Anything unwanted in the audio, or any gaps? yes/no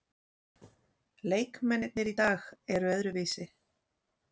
no